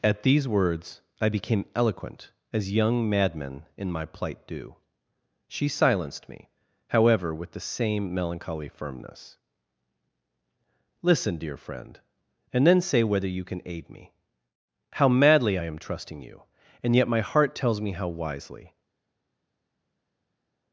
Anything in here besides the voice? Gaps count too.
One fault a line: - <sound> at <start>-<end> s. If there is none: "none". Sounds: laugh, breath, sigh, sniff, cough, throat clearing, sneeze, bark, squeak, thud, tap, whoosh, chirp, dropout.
none